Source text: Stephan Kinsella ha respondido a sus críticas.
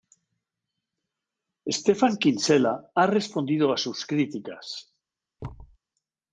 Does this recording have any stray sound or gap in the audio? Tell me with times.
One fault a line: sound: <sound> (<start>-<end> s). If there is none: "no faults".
sound: thud (5.4-5.8 s)